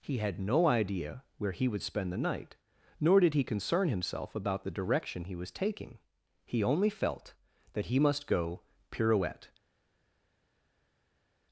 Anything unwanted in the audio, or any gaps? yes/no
no